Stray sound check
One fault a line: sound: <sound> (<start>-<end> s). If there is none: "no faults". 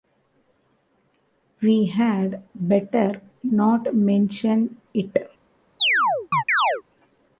sound: chirp (5.8-6.8 s)